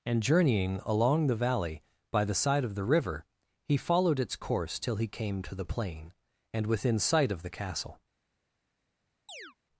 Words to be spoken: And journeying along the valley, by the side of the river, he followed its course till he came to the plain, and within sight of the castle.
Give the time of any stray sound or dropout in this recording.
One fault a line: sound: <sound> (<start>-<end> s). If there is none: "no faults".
sound: chirp (9.3-9.6 s)